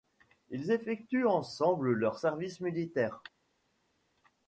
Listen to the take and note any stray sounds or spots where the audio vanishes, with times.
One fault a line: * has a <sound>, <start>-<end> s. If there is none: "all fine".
all fine